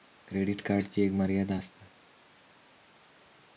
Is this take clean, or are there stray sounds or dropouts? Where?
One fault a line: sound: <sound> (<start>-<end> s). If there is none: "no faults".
no faults